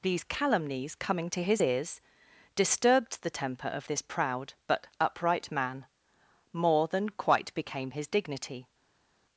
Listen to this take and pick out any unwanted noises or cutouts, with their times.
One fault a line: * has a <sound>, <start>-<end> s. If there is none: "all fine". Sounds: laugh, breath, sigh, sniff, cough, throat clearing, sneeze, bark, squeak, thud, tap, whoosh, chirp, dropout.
all fine